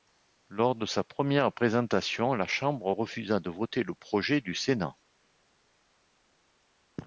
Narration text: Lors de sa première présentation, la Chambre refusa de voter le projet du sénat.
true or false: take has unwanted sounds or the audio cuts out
false